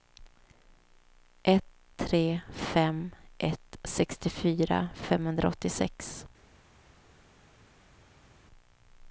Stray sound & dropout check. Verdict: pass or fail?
pass